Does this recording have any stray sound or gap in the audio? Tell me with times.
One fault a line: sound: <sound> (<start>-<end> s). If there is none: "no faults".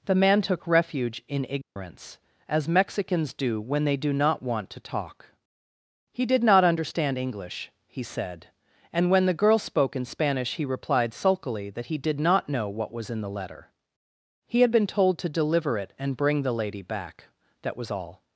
sound: dropout (1.6-1.8 s)